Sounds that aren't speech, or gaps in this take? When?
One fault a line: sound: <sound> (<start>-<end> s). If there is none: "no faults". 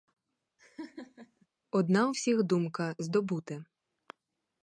sound: laugh (0.6-1.5 s)